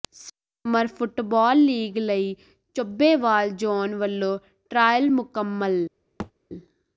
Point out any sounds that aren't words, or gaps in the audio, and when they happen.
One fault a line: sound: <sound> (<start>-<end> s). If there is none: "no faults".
sound: thud (6.2-6.3 s)